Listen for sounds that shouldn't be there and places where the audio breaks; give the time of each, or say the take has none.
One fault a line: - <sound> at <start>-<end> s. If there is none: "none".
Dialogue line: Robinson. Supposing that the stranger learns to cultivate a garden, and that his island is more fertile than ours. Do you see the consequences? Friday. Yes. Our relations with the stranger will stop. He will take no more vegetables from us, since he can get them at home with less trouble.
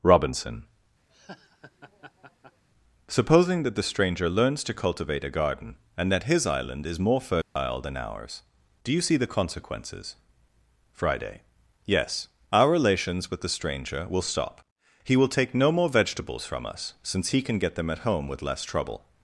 - laugh at 1.1-2.6 s
- dropout at 7.4-7.6 s